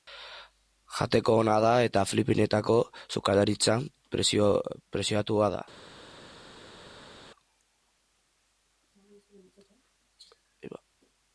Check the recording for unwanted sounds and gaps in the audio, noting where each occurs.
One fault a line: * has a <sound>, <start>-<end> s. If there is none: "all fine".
all fine